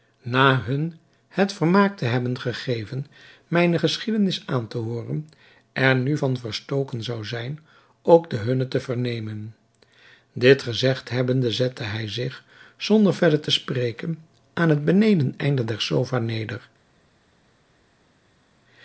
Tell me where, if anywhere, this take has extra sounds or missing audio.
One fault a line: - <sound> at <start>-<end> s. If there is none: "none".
none